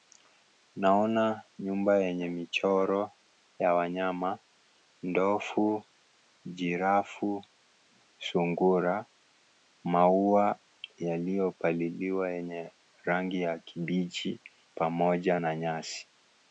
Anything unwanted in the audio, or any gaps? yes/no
no